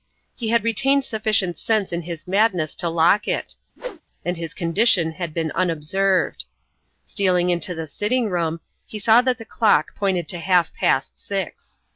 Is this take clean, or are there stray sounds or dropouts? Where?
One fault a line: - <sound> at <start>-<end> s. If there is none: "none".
- whoosh at 3.8-4.0 s